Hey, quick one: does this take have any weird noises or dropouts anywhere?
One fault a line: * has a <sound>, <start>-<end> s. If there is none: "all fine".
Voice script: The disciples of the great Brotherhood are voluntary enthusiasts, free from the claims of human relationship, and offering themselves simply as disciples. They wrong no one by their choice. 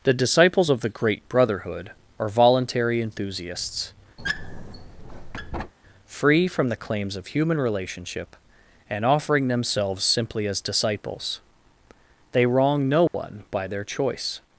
* has a squeak, 4.2-5.7 s
* has a dropout, 13.1-13.1 s